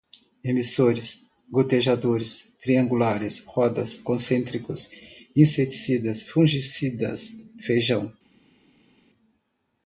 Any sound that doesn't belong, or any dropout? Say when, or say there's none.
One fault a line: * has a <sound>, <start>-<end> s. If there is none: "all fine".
all fine